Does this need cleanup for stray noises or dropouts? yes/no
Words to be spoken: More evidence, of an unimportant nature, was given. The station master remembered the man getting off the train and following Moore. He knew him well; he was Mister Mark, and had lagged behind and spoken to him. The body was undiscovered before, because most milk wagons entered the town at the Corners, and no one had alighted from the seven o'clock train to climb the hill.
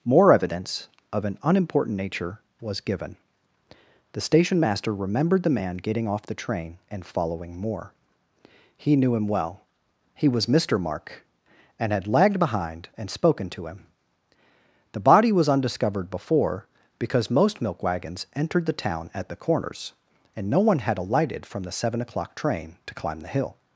no